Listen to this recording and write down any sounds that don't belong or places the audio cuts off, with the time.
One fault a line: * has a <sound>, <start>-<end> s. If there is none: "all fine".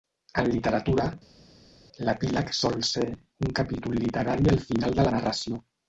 all fine